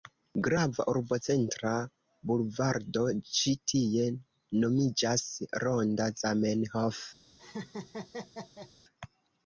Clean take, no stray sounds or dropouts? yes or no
no